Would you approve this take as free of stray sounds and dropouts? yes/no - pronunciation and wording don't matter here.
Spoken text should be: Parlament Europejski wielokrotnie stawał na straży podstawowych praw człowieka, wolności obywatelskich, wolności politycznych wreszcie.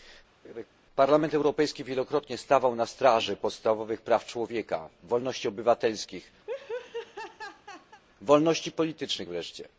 no